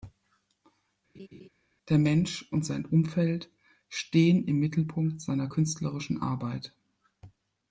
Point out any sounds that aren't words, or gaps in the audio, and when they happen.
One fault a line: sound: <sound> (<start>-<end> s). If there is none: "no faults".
sound: laugh (1.1-1.5 s)